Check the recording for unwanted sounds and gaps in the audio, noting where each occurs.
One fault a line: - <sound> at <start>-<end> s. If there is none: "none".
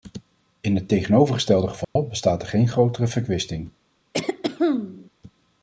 - dropout at 1.8-2.0 s
- throat clearing at 4.1-5.1 s